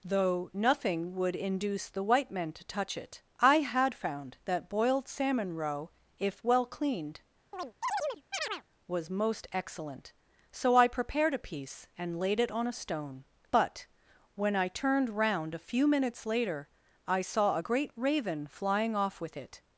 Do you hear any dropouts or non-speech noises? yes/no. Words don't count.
yes